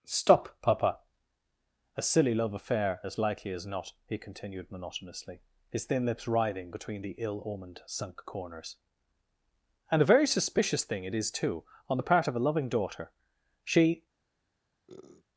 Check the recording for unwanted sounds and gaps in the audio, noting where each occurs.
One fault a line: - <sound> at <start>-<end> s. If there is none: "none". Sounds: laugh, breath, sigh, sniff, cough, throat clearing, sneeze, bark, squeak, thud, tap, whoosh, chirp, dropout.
- sniff at 14.9-15.2 s